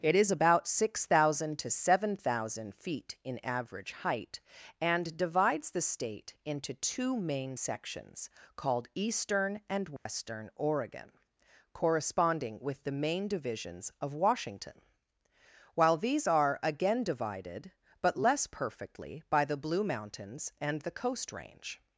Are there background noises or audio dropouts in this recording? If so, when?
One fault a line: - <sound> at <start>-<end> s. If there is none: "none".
- dropout at 10.0-10.1 s